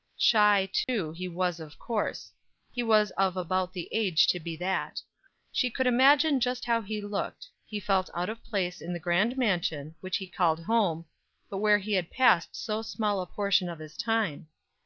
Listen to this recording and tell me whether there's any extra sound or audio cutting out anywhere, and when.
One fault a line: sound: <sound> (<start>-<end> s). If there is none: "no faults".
sound: dropout (0.8-0.9 s)